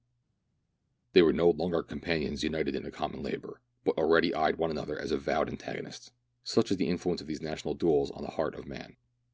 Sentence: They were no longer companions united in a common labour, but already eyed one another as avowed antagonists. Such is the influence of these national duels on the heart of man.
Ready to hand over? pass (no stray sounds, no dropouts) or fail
pass